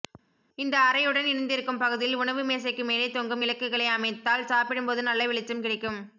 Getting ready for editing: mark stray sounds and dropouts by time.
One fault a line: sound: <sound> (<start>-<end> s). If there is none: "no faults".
no faults